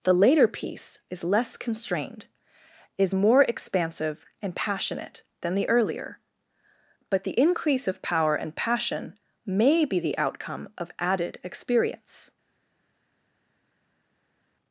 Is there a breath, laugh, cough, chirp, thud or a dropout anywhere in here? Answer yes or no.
no